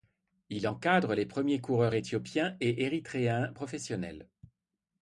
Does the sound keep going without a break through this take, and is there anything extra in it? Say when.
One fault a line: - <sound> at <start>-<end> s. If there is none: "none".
none